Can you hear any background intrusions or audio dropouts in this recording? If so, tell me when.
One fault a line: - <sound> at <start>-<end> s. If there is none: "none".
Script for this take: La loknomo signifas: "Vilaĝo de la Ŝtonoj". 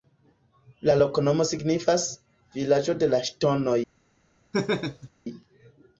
- laugh at 4.5-5.1 s